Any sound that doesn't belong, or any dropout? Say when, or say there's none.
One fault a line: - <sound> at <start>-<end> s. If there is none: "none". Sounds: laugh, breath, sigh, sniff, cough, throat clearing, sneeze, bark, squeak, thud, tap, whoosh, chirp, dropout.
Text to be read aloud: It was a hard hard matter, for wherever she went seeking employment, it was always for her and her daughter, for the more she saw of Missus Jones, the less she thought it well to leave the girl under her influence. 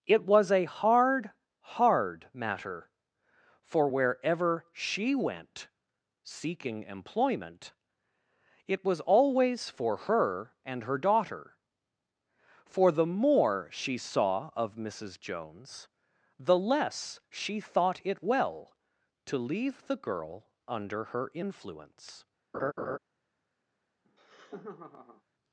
- laugh at 22.5-23.0 s
- laugh at 24.0-25.2 s